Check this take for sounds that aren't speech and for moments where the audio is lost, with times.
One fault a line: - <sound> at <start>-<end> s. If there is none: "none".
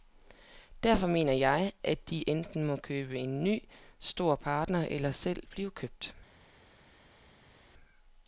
none